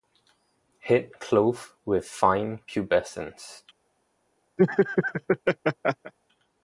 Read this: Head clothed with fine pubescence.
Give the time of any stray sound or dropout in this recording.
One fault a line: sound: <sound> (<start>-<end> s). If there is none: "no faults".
sound: laugh (4.6-6.1 s)